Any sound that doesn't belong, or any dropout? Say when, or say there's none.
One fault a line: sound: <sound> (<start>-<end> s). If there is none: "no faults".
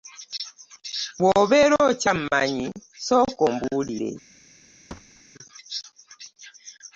sound: thud (4.9-5.2 s)